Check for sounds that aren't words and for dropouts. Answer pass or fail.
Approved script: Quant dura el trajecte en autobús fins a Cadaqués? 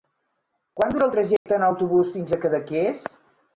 fail